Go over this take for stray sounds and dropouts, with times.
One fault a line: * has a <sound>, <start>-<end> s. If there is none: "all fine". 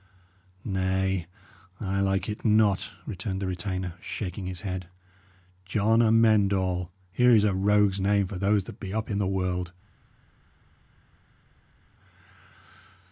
all fine